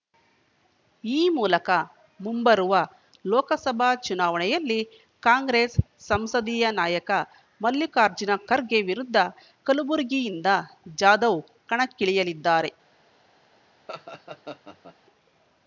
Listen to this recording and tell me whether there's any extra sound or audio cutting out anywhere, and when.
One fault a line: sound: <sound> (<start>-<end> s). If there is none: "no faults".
sound: laugh (13.9-15.0 s)